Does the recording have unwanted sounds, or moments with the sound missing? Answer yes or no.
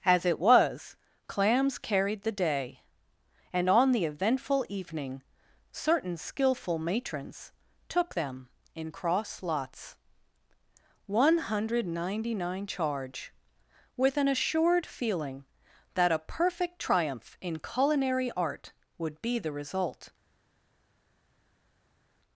no